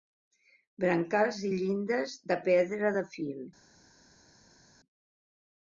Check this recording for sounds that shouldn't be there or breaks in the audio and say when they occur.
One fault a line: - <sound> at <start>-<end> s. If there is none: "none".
none